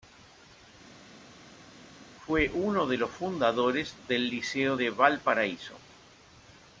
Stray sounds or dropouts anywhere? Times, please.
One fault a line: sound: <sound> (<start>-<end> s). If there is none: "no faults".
no faults